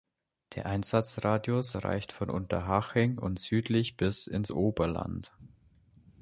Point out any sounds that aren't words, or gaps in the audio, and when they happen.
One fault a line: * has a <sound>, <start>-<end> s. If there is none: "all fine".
all fine